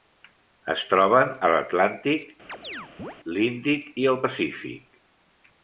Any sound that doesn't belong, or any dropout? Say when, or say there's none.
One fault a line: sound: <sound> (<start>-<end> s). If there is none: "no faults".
sound: chirp (2.5-3.2 s)